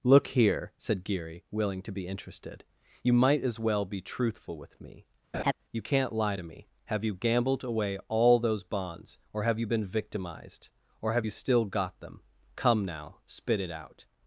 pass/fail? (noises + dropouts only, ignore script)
fail